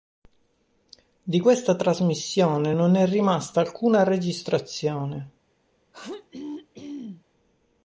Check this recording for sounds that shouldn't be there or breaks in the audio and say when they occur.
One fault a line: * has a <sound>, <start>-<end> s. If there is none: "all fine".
* has a throat clearing, 5.9-7.2 s